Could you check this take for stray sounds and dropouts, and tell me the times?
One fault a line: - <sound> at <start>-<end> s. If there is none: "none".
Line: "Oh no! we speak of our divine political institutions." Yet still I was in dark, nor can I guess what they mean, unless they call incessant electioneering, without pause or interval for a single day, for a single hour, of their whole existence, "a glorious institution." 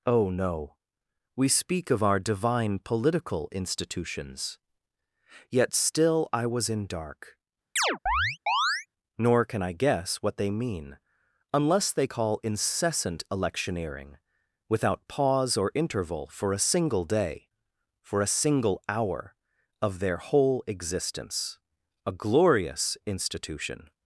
- chirp at 7.8-8.9 s